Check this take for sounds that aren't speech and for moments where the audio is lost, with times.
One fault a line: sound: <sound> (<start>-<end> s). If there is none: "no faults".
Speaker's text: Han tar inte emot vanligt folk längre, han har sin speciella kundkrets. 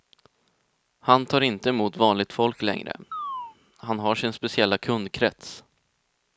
sound: chirp (3.1-3.6 s)